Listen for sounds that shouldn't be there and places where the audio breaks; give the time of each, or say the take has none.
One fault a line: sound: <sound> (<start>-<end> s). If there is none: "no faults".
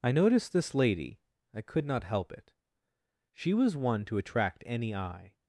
no faults